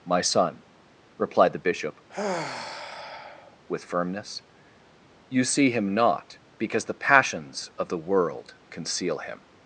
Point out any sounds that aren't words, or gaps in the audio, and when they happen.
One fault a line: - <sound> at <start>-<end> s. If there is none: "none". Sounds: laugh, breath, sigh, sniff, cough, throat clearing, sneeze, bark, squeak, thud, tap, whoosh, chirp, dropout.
- sigh at 2.1-3.6 s